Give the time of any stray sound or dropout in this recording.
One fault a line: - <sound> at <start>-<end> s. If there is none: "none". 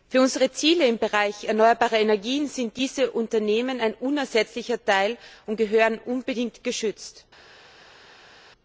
none